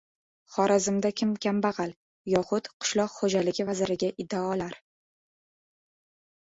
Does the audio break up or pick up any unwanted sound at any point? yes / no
no